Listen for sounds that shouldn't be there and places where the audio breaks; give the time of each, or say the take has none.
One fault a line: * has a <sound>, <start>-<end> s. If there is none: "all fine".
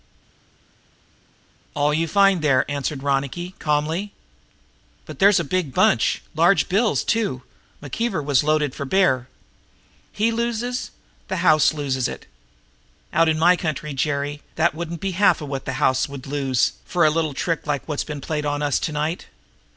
all fine